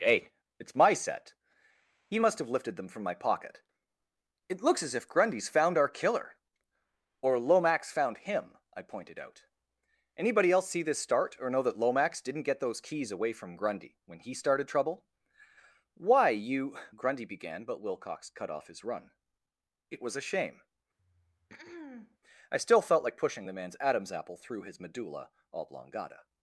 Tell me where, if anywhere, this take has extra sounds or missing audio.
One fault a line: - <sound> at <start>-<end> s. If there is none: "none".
- throat clearing at 21.0-22.2 s